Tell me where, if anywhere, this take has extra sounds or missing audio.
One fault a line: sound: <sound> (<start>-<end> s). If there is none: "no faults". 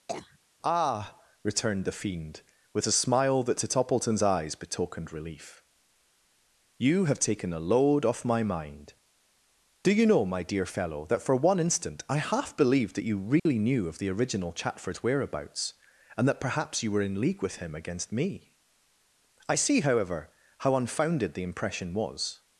sound: cough (0.1-0.4 s)
sound: dropout (13.4-13.5 s)